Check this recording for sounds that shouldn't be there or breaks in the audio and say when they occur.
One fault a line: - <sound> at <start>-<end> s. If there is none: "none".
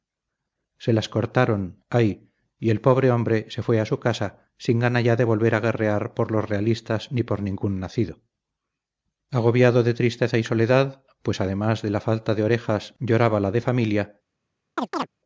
- chirp at 14.8-15.1 s